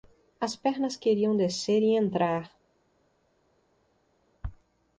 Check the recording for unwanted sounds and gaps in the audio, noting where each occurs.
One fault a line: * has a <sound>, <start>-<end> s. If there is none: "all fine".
all fine